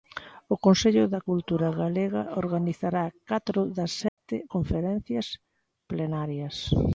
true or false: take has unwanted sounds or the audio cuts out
true